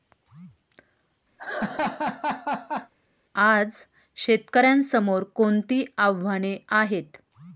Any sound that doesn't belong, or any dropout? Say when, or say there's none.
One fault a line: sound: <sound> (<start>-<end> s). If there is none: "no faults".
sound: laugh (1.4-2.9 s)